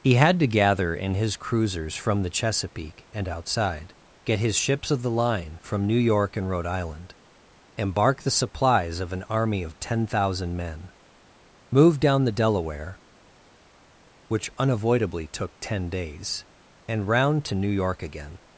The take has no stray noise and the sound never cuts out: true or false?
true